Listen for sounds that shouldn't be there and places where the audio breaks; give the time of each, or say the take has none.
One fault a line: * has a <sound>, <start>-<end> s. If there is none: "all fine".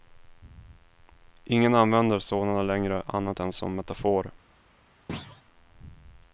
* has a thud, 5.1-5.4 s